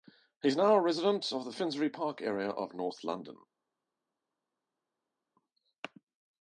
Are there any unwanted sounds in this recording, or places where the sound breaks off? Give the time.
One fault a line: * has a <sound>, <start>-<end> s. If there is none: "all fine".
all fine